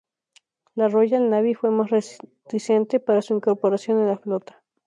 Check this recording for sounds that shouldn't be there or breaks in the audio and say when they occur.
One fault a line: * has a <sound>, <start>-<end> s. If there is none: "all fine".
all fine